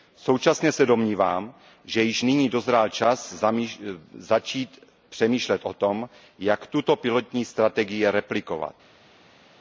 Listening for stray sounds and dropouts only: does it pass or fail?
pass